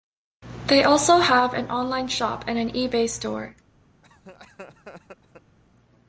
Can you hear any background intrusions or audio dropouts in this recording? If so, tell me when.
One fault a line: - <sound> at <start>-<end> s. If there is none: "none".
- laugh at 4.0-5.6 s